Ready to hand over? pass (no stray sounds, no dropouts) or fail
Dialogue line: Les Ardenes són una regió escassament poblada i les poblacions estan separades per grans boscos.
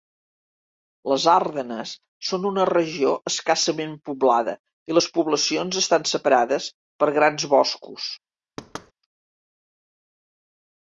fail